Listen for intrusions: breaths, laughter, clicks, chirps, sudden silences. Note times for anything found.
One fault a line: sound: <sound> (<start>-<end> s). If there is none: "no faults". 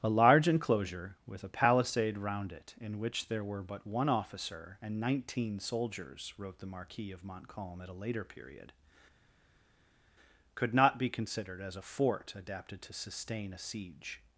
no faults